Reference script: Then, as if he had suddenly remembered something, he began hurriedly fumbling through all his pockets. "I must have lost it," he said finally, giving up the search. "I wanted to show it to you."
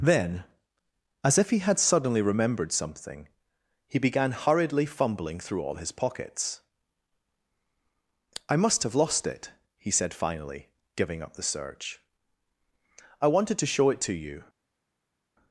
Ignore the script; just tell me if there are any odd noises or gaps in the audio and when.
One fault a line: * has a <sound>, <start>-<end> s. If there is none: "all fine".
all fine